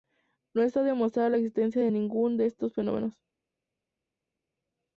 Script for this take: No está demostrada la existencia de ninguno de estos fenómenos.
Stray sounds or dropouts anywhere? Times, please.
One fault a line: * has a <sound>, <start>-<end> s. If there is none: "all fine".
all fine